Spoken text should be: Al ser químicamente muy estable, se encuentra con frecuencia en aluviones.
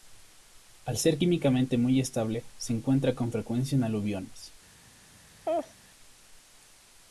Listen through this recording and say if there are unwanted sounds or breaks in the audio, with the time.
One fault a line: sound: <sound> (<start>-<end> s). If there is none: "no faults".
sound: laugh (5.5-5.7 s)